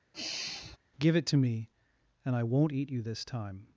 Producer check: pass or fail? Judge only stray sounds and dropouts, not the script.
fail